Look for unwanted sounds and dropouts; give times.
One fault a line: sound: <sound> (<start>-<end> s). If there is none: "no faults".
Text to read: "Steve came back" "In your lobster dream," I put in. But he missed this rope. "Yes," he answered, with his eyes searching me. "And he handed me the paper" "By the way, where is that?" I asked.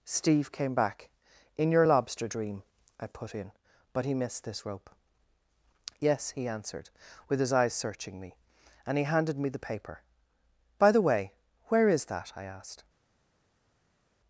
no faults